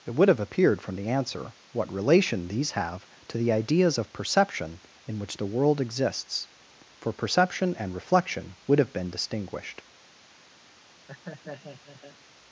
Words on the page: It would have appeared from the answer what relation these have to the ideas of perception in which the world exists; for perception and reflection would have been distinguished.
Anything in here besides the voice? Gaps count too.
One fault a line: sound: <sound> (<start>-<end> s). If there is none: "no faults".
sound: laugh (11.1-12.2 s)